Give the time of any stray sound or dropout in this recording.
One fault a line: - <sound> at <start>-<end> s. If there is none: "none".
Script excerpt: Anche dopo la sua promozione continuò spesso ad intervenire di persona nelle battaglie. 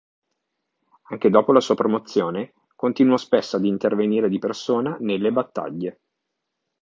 none